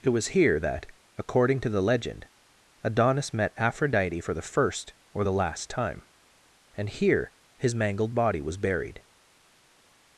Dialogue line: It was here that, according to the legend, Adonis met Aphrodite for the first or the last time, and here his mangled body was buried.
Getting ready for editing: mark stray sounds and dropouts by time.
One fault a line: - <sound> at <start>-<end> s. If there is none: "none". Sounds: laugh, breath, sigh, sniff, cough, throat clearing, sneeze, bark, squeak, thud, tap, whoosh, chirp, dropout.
none